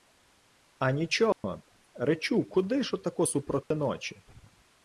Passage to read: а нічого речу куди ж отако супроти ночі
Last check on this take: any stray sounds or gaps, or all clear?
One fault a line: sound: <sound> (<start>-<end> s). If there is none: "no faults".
sound: dropout (1.3-1.4 s)
sound: dropout (3.6-3.7 s)